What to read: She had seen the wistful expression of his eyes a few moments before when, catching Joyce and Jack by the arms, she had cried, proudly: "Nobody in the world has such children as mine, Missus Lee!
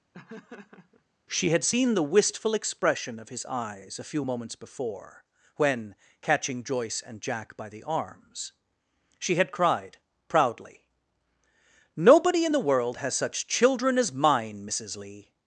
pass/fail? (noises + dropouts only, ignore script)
fail